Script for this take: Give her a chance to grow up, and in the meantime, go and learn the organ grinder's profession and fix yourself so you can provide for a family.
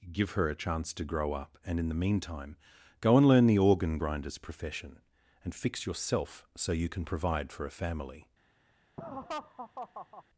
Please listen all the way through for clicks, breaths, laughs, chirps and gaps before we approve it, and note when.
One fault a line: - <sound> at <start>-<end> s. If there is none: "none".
- laugh at 9.0-10.2 s